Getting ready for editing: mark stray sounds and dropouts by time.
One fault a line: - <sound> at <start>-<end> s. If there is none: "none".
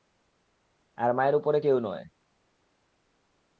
none